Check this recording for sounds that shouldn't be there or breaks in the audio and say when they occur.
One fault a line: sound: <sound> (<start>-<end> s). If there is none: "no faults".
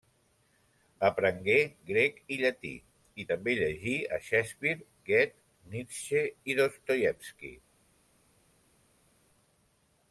no faults